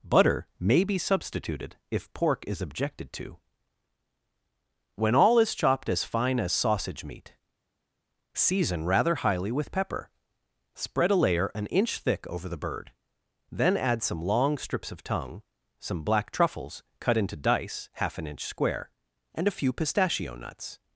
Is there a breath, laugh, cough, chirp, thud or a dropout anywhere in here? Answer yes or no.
no